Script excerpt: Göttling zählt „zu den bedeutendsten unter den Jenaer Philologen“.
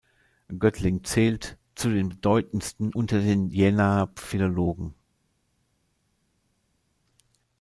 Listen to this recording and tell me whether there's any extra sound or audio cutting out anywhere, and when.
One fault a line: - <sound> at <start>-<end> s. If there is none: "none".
none